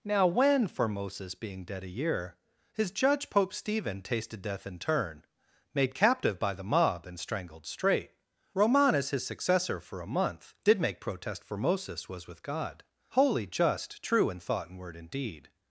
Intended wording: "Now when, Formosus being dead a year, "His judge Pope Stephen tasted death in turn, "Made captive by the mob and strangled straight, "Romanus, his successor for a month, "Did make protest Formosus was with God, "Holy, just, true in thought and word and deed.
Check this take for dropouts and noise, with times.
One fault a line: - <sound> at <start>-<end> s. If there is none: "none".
none